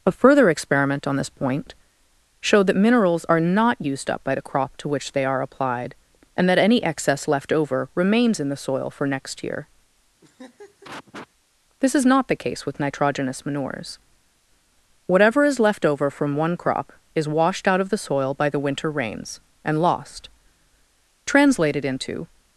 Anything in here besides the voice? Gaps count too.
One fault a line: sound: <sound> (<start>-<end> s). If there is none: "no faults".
sound: laugh (10.2-11.3 s)